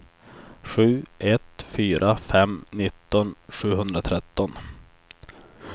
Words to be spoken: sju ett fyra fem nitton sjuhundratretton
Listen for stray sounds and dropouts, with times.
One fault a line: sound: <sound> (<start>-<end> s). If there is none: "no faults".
no faults